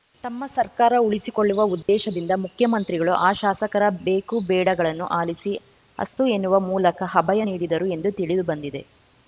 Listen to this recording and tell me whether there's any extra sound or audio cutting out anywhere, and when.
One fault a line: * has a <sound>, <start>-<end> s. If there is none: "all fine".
* has a dropout, 1.8-1.9 s